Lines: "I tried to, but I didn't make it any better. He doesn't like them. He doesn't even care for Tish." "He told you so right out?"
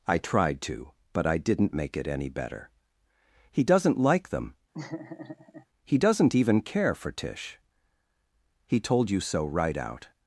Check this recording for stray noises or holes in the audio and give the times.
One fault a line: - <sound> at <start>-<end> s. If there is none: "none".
- laugh at 4.7-5.7 s